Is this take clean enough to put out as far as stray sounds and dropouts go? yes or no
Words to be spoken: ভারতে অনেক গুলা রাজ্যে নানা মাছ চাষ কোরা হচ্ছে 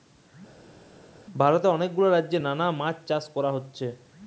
yes